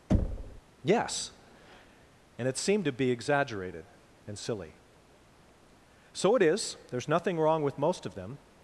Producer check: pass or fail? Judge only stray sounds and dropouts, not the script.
fail